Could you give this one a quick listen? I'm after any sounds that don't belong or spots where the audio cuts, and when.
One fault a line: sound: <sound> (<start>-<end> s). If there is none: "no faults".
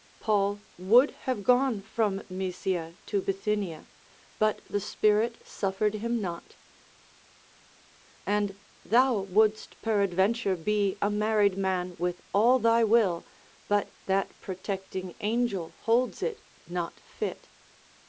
no faults